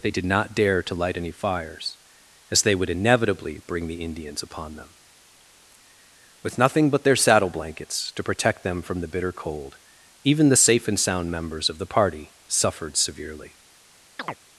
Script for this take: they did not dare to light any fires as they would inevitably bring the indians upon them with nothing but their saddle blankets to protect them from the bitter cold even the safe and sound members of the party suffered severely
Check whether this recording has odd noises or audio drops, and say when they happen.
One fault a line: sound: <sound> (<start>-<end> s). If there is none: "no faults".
sound: chirp (14.2-14.4 s)